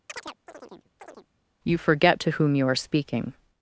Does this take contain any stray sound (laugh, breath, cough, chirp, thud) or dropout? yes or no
yes